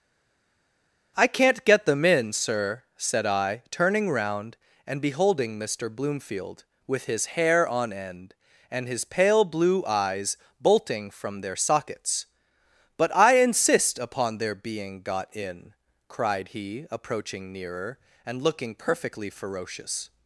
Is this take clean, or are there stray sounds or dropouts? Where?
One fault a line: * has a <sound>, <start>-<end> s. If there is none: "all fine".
all fine